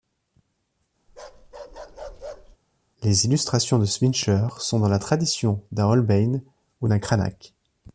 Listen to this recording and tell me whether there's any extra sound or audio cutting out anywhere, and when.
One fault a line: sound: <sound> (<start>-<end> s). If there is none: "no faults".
sound: bark (1.1-2.6 s)